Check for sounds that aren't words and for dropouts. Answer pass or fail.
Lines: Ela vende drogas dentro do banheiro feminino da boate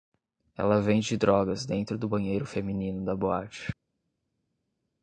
pass